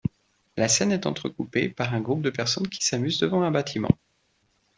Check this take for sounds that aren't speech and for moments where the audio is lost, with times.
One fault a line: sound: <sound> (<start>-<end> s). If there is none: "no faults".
no faults